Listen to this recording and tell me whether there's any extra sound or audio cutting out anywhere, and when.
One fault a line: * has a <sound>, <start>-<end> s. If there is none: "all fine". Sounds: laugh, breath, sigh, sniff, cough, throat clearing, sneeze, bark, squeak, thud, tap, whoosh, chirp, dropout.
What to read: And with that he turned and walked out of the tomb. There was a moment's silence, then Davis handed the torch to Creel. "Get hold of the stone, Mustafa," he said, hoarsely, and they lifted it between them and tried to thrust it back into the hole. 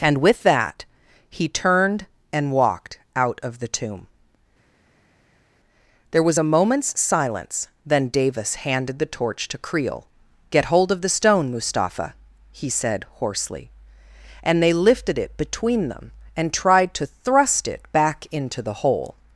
all fine